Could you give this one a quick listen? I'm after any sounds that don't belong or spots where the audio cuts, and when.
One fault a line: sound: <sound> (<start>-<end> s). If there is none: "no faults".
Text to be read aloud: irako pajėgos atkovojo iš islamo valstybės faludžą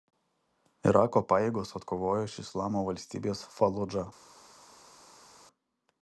no faults